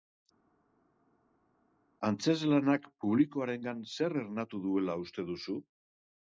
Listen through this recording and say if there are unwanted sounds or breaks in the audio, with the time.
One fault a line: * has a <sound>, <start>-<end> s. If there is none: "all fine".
all fine